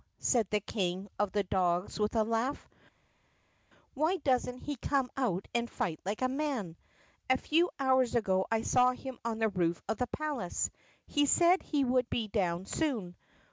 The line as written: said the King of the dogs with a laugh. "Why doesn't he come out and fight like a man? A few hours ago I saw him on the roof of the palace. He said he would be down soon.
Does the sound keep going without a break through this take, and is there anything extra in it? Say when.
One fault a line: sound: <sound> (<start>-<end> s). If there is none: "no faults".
no faults